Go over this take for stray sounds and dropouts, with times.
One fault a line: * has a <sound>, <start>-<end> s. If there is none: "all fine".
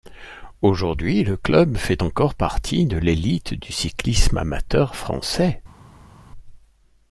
all fine